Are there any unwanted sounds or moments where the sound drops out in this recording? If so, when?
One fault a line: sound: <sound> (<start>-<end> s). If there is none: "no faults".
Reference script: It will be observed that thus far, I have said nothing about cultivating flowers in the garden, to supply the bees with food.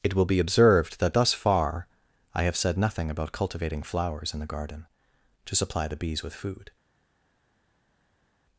no faults